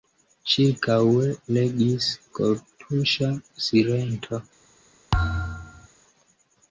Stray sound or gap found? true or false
true